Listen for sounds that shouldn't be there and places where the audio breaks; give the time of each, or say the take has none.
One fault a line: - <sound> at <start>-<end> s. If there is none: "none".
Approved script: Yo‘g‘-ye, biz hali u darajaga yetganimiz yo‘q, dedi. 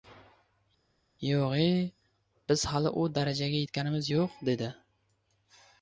none